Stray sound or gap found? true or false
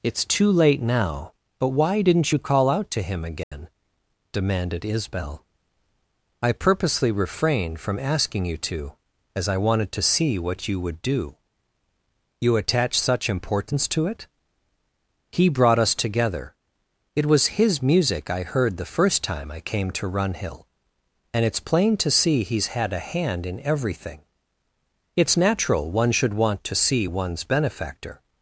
true